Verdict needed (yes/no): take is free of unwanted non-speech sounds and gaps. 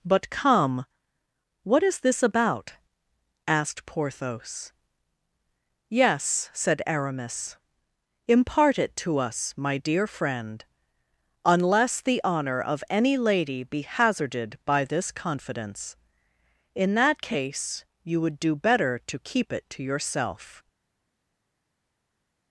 yes